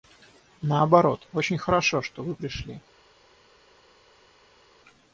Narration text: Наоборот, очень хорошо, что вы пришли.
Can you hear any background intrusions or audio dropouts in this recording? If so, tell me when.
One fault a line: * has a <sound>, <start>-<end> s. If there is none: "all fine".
all fine